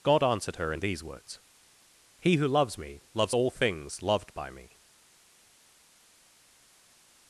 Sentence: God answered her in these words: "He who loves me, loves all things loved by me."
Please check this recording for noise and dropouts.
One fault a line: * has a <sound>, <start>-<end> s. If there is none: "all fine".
all fine